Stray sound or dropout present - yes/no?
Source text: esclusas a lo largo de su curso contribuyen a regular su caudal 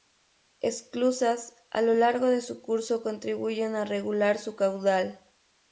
no